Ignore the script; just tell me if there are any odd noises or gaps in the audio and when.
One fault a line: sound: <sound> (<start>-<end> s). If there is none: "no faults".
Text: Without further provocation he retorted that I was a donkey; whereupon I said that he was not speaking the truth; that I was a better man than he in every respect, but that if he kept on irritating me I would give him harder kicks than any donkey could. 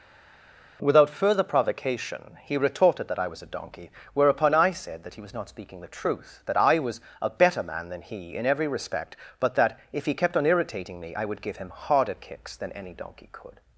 no faults